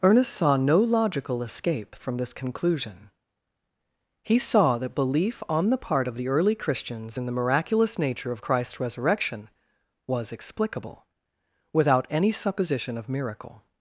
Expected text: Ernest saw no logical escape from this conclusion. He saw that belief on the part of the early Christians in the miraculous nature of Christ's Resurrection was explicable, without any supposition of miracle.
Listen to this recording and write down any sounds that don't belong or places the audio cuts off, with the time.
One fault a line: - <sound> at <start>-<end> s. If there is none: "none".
none